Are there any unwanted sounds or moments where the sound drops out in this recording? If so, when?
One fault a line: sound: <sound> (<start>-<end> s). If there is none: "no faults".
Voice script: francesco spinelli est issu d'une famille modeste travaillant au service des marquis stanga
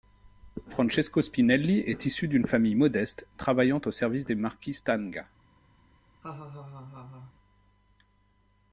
sound: laugh (6.2-7.3 s)